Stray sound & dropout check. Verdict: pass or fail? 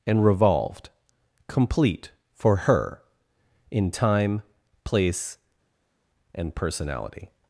pass